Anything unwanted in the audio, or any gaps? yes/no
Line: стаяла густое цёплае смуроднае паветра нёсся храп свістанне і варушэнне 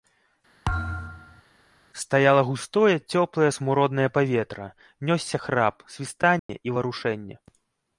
yes